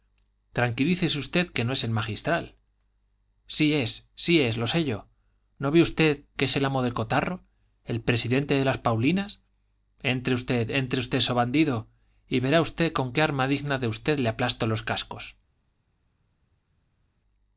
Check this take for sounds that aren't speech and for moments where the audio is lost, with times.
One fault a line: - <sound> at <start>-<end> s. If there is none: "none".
none